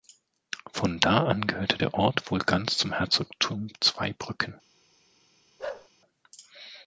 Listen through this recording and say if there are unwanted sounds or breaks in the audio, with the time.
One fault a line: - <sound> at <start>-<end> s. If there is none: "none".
- bark at 5.6-5.9 s